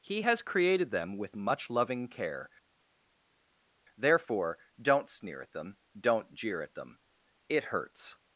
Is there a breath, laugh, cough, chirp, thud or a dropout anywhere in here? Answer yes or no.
no